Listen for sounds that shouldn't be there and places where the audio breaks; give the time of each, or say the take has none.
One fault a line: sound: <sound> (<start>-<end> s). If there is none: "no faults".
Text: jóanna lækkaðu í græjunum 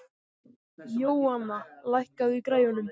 no faults